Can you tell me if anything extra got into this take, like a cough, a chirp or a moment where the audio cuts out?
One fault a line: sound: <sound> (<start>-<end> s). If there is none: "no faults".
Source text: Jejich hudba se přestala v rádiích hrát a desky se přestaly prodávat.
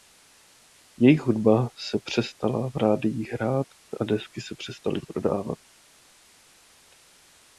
no faults